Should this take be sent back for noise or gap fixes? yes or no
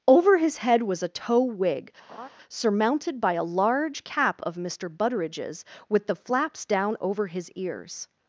yes